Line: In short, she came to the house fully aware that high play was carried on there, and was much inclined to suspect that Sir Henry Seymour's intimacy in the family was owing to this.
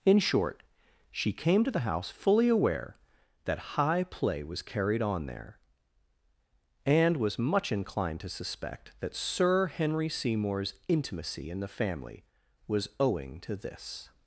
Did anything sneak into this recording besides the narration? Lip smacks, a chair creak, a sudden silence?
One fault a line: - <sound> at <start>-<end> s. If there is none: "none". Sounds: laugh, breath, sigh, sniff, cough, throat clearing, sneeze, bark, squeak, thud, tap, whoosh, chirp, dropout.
none